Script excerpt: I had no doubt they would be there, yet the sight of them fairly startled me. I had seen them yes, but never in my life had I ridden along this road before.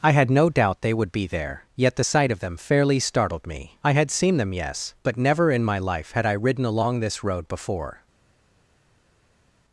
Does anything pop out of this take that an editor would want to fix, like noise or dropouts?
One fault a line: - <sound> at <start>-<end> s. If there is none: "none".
none